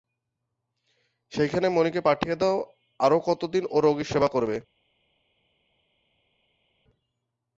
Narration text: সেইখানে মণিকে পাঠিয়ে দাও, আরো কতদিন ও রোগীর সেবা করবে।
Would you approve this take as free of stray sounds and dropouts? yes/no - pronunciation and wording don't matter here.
yes